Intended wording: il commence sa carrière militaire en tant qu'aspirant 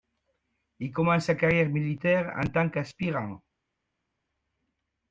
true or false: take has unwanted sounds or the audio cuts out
false